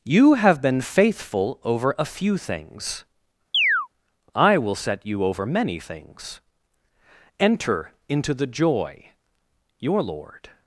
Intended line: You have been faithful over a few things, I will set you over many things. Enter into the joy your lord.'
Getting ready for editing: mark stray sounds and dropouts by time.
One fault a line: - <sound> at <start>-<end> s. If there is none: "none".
- chirp at 3.5-3.9 s